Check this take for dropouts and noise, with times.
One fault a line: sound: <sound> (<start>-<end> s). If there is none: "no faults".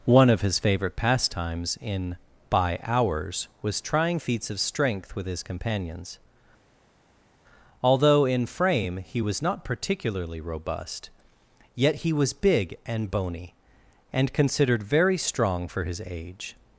no faults